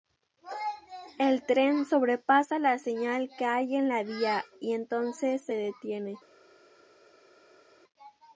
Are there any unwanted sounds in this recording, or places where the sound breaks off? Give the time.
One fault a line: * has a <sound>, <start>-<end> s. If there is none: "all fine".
all fine